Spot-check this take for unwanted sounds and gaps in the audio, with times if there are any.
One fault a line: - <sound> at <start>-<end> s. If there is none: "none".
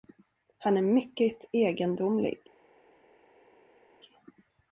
none